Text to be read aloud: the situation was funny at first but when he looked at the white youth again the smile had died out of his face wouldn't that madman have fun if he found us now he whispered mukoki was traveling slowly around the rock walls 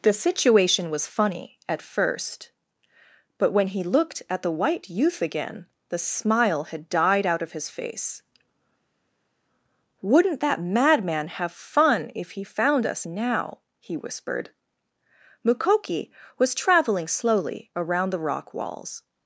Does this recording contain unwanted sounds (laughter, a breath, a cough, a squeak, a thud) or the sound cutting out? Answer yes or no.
no